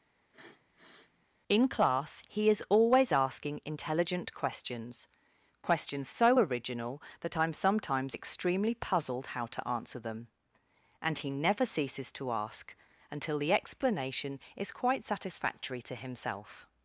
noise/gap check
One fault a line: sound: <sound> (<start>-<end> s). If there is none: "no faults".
sound: sniff (0.2-1.3 s)